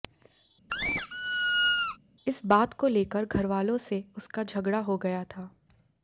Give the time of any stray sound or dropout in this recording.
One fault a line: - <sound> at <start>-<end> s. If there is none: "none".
- squeak at 0.7-2.0 s